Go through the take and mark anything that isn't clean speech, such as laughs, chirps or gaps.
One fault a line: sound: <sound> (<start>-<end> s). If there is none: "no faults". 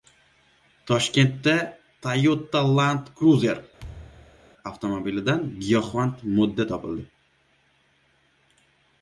sound: thud (3.8-4.5 s)